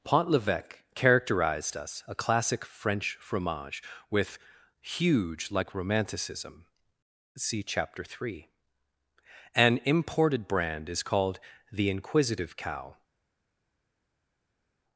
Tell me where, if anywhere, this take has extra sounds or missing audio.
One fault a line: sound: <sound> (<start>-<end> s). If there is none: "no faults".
no faults